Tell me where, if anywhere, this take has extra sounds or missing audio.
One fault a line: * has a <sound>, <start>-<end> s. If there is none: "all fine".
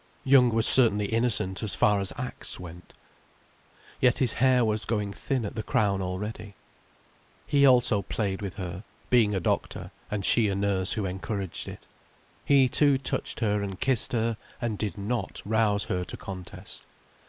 all fine